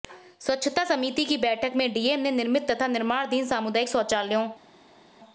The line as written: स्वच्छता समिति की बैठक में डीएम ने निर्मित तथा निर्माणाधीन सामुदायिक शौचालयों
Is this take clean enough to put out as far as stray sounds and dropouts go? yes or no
yes